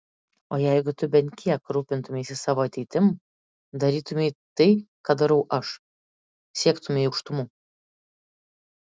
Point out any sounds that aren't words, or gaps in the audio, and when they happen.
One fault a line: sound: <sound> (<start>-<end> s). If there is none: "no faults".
no faults